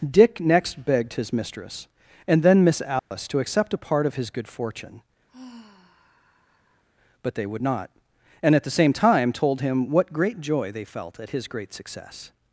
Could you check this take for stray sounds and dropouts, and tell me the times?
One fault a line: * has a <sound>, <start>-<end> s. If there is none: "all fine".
* has a dropout, 3.0-3.1 s
* has a sigh, 5.3-6.8 s